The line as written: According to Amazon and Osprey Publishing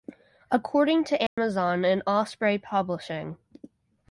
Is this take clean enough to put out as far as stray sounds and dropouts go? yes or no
no